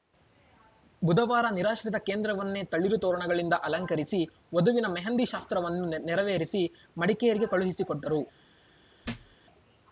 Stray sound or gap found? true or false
true